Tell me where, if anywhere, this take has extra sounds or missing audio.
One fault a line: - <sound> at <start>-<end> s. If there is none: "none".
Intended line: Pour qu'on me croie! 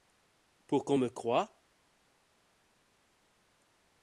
none